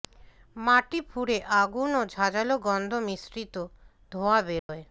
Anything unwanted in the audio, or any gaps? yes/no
yes